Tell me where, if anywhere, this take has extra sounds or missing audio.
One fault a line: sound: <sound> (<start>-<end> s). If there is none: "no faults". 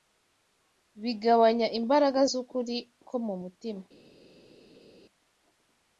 no faults